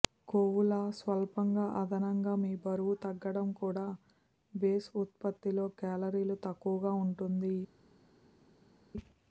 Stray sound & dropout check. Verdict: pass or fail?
pass